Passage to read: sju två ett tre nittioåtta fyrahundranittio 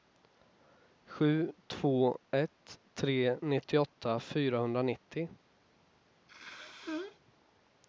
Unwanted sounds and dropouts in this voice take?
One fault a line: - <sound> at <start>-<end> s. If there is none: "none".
- sneeze at 6.3-7.2 s